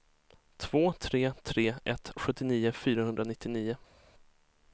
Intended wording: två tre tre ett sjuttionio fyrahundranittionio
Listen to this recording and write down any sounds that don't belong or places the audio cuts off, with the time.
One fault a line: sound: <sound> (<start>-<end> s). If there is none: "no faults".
no faults